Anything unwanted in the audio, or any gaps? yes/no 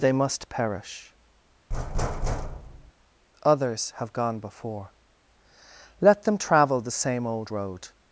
yes